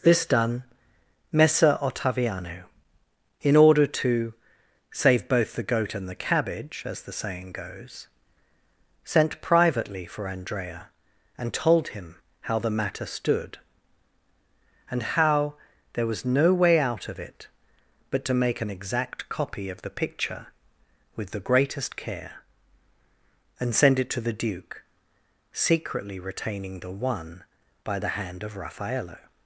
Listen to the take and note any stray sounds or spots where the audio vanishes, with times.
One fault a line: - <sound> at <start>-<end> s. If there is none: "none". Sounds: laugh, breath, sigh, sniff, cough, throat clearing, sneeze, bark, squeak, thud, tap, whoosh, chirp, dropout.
none